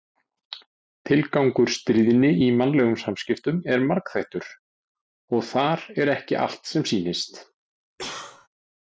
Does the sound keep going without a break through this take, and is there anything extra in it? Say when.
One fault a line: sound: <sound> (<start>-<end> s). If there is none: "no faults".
sound: cough (8.0-8.5 s)